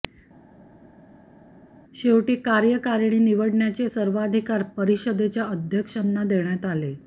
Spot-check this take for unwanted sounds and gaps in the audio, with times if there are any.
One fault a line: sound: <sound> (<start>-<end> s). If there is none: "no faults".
no faults